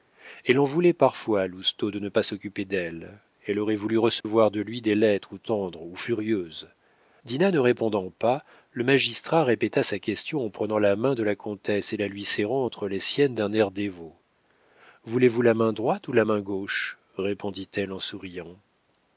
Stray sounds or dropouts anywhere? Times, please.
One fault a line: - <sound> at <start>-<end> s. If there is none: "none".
- dropout at 4.2-4.2 s